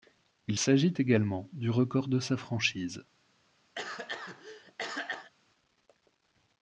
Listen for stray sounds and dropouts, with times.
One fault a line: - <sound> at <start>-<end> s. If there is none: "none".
- cough at 3.8-5.3 s